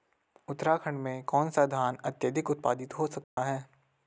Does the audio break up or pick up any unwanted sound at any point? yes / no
yes